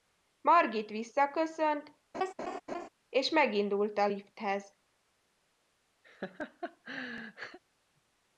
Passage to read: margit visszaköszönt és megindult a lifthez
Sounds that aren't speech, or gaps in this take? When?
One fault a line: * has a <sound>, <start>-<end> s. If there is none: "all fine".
* has a laugh, 2.1-2.9 s
* has a laugh, 6.0-7.6 s